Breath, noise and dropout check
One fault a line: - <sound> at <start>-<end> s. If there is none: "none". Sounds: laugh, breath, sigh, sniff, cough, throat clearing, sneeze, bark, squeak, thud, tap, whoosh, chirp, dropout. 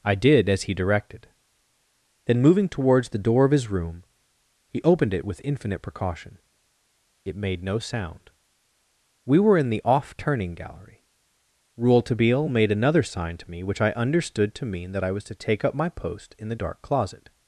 none